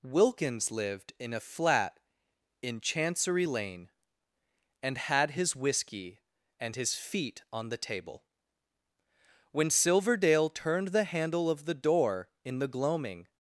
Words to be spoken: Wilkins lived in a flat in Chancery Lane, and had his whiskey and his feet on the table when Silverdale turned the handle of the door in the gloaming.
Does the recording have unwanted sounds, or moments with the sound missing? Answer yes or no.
no